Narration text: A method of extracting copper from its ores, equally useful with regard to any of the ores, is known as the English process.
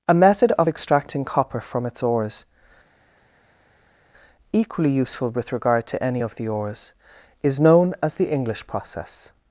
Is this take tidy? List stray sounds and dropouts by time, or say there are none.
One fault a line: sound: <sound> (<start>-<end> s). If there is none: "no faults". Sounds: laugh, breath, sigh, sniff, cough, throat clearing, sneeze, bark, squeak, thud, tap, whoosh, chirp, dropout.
no faults